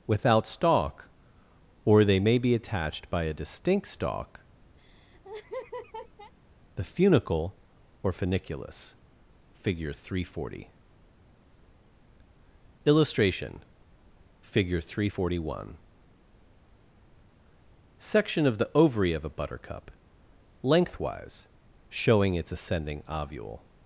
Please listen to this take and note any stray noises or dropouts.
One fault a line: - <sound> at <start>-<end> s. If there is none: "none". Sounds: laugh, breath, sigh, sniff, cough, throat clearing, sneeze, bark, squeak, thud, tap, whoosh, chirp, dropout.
- laugh at 4.8-6.3 s